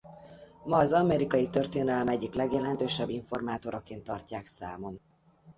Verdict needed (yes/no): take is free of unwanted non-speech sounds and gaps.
yes